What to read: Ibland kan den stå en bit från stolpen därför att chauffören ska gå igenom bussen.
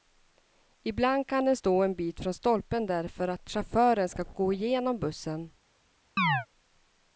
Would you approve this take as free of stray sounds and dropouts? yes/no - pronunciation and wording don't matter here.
no